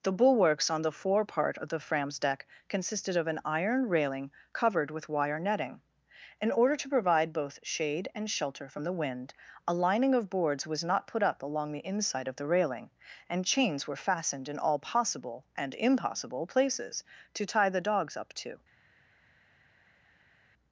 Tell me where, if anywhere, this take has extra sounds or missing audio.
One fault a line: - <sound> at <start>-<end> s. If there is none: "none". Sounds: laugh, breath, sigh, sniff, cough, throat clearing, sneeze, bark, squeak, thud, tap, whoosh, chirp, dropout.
none